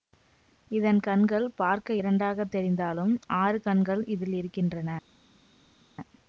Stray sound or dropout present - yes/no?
no